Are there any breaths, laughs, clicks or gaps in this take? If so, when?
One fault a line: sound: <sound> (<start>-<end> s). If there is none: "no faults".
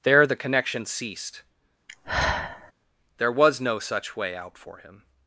sound: sigh (1.9-2.7 s)